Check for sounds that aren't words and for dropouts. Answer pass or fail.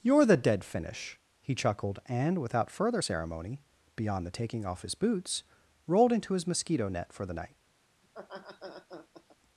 fail